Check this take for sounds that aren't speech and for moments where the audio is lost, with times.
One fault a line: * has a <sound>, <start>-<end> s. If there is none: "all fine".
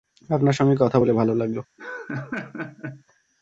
* has a laugh, 1.8-3.0 s